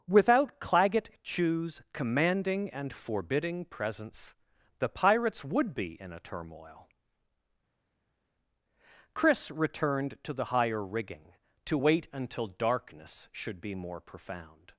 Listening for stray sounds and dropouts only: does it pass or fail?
pass